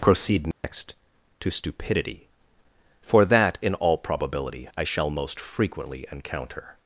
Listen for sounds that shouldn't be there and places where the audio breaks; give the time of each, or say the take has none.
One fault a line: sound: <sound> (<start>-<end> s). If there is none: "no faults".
sound: dropout (0.5-0.6 s)